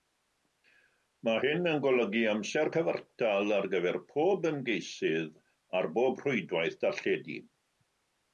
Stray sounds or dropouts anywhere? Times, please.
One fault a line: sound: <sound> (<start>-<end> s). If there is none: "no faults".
no faults